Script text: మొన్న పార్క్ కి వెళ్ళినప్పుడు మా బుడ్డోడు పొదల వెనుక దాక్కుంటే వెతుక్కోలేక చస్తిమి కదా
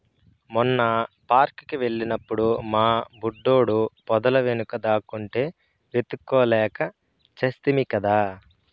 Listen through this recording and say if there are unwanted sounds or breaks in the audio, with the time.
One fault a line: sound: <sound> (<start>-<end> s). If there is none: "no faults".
no faults